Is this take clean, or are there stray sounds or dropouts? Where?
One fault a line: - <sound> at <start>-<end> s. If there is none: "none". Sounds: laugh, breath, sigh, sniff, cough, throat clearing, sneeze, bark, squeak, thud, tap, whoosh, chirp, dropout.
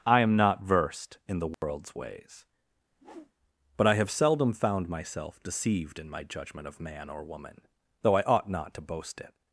- dropout at 1.5-1.6 s
- whoosh at 2.9-3.3 s